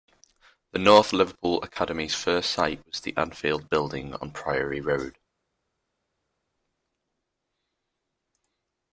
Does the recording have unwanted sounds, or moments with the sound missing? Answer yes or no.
no